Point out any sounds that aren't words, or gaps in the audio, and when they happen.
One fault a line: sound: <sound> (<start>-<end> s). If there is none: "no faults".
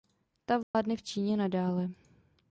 sound: dropout (0.6-0.7 s)